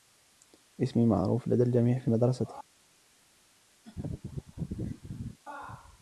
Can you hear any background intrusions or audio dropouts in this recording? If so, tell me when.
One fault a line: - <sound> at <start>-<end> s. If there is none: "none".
- laugh at 3.8-5.4 s